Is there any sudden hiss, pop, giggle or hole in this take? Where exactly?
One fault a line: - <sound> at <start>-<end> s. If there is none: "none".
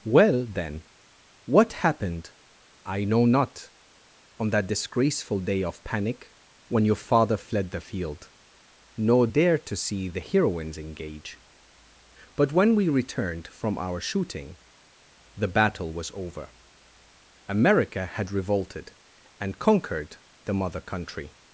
none